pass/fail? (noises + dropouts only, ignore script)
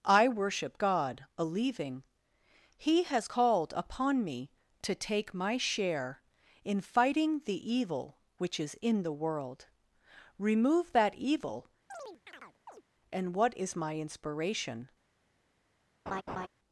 fail